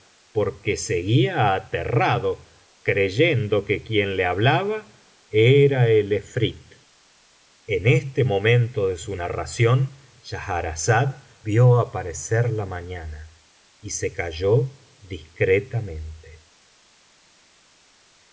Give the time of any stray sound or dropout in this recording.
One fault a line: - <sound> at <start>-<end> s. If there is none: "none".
none